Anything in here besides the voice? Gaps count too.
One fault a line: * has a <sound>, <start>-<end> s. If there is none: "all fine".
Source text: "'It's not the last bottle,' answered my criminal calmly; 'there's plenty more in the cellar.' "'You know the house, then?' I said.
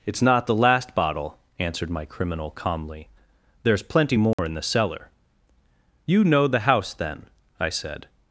* has a dropout, 4.3-4.4 s